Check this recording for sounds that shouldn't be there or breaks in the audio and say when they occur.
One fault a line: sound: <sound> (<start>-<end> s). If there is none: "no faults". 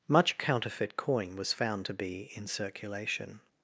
no faults